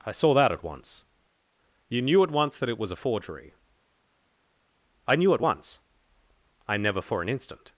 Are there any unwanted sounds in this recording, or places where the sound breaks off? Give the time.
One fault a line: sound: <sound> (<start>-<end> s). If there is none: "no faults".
no faults